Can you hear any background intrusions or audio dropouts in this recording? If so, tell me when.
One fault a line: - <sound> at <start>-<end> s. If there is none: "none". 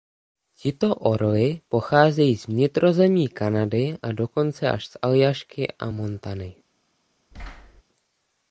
- thud at 7.3-7.8 s